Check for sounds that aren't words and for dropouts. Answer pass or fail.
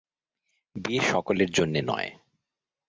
pass